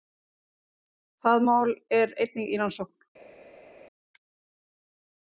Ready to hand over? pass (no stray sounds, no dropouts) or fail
pass